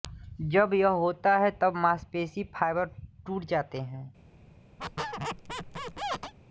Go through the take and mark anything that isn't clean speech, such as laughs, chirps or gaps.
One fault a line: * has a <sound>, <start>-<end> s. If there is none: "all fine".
* has a squeak, 4.8-6.3 s